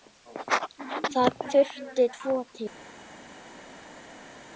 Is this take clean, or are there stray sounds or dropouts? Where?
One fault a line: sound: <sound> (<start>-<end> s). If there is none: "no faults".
no faults